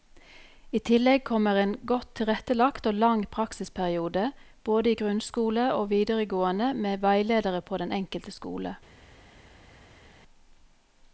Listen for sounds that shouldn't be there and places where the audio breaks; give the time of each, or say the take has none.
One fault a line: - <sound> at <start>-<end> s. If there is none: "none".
none